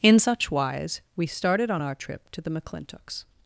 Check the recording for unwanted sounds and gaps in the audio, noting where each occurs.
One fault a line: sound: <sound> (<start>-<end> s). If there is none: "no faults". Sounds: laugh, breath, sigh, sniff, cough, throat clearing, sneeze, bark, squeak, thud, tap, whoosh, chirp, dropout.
no faults